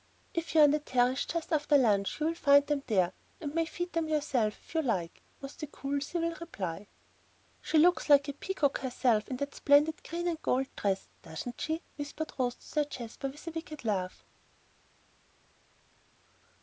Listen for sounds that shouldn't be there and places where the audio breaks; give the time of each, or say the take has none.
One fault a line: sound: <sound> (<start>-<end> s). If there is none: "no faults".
no faults